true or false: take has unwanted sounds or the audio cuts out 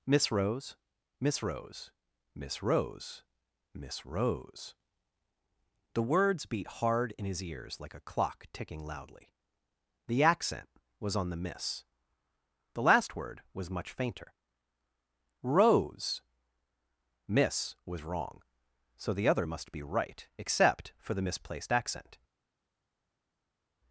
false